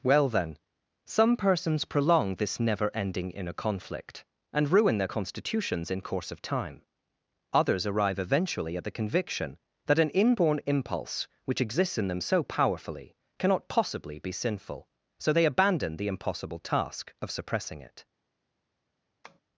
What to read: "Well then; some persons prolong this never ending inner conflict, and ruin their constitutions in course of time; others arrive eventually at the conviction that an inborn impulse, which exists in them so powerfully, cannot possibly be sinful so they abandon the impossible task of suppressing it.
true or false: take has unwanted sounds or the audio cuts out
true